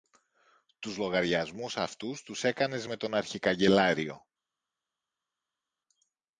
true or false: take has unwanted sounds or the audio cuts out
false